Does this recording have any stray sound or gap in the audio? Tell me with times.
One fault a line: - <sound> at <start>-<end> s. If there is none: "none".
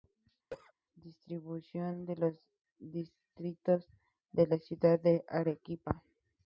- cough at 0.5-0.7 s